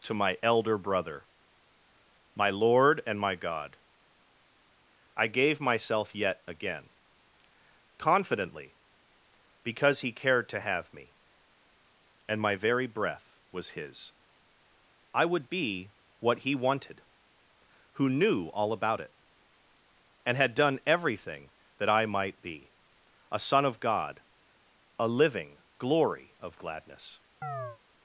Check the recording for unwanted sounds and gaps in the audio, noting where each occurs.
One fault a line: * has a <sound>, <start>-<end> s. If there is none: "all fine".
* has a chirp, 27.4-27.8 s